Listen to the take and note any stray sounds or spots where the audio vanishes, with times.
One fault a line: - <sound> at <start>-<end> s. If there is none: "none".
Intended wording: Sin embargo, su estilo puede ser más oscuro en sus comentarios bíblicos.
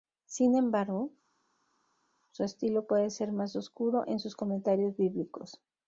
none